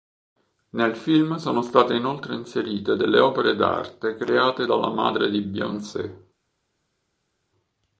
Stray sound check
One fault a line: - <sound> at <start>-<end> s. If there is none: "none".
none